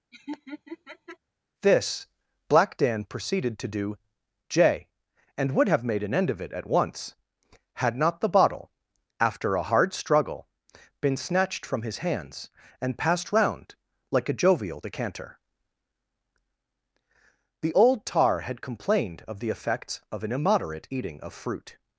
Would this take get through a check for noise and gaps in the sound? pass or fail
fail